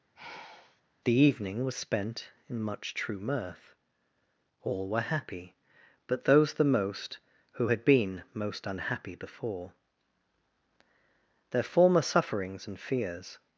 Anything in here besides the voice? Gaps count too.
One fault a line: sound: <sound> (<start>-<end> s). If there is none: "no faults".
sound: sigh (0.2-0.8 s)